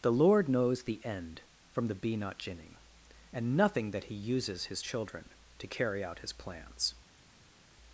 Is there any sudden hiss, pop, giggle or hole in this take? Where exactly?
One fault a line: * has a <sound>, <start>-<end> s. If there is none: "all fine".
all fine